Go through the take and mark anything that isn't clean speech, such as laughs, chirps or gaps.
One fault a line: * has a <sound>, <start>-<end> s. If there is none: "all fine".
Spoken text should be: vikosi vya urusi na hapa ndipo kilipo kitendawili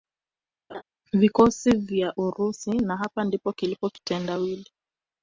* has a laugh, 0.7-0.8 s